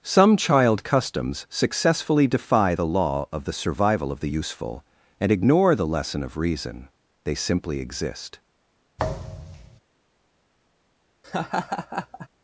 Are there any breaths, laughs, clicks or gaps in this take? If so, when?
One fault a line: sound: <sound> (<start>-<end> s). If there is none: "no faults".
sound: thud (9.0-9.8 s)
sound: laugh (11.2-12.3 s)